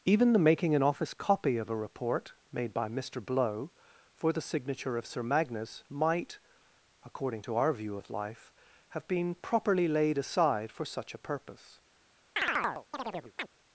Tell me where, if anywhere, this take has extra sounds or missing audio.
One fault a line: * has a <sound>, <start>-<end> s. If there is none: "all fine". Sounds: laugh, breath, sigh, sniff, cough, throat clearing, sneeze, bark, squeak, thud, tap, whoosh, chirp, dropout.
* has a chirp, 12.4-13.5 s